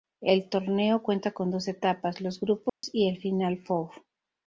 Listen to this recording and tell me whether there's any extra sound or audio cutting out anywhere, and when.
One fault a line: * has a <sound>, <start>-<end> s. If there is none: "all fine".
* has a dropout, 2.7-2.8 s